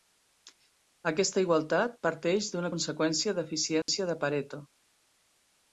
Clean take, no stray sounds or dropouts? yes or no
no